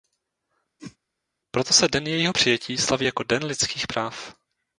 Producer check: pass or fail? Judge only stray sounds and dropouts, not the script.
fail